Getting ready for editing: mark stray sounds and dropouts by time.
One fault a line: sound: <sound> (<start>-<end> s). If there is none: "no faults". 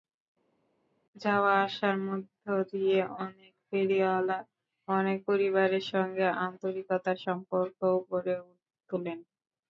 no faults